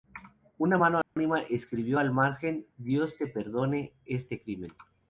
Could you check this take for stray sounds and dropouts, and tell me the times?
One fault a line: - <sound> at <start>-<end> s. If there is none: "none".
- dropout at 1.0-1.2 s